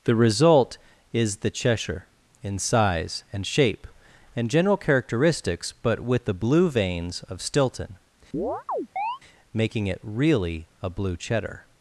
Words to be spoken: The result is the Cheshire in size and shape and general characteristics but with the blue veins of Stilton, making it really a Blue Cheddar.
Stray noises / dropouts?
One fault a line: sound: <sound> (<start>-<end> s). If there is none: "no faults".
sound: chirp (8.3-9.2 s)